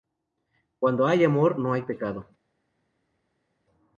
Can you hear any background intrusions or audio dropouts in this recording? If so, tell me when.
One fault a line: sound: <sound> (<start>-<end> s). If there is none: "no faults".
no faults